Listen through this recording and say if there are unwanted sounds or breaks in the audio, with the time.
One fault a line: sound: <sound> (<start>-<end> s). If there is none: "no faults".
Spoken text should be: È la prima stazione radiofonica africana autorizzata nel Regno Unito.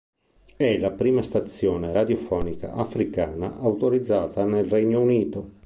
no faults